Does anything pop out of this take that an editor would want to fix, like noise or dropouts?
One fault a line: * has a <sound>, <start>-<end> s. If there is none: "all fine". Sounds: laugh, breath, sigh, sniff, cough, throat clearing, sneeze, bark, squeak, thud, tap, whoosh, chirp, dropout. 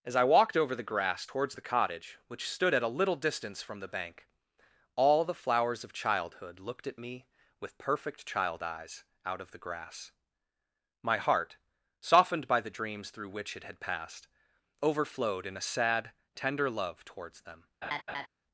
* has a laugh, 17.8-18.3 s